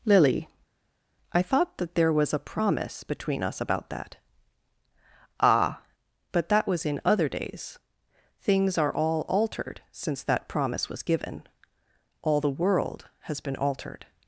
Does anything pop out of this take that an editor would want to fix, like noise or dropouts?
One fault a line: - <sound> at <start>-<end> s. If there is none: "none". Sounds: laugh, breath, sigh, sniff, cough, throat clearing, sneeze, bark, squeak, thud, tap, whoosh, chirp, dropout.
none